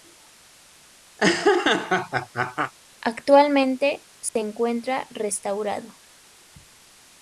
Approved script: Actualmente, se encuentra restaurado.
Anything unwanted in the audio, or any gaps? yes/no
yes